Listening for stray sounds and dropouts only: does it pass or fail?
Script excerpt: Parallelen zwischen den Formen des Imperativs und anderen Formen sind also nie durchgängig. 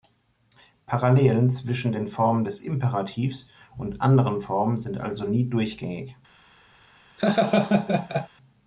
fail